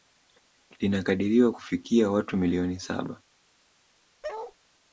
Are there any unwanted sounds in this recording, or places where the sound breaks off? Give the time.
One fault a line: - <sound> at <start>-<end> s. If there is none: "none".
- bark at 4.2-4.5 s